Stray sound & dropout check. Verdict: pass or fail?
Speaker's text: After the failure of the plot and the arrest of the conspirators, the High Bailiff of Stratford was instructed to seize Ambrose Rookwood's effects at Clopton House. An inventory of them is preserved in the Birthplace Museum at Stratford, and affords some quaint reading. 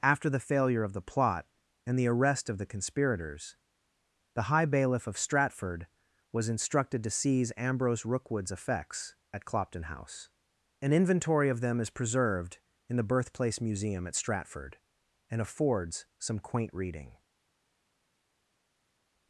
pass